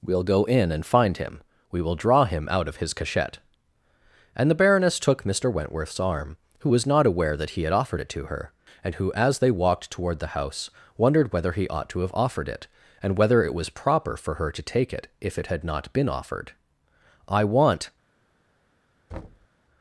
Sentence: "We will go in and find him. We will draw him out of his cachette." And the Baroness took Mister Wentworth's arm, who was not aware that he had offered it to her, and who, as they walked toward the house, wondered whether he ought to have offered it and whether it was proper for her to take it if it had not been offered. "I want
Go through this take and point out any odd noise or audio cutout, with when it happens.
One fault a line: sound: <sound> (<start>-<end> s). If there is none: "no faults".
sound: thud (19.1-19.5 s)